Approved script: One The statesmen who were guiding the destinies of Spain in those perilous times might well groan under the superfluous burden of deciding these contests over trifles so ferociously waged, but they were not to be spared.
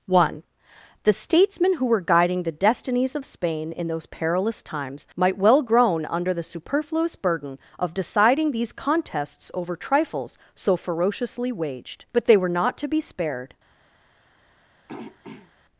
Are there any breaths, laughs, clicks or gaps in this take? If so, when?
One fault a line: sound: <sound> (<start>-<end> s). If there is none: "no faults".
sound: throat clearing (14.9-15.5 s)